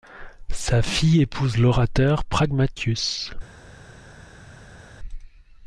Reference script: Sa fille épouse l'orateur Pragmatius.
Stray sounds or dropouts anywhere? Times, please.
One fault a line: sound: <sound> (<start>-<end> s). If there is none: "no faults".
no faults